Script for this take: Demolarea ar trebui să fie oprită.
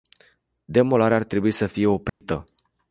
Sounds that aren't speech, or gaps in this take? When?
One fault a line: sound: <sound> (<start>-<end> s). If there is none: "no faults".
sound: dropout (2.1-2.2 s)